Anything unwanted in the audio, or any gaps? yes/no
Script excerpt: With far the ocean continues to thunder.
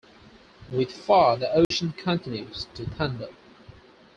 yes